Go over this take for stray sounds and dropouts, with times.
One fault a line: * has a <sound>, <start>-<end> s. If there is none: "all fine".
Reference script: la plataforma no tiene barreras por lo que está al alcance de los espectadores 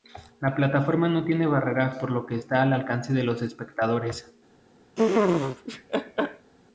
* has a laugh, 5.0-6.5 s